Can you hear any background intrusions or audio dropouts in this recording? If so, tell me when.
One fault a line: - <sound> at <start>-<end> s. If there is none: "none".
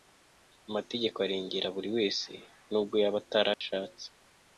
- dropout at 3.5-3.6 s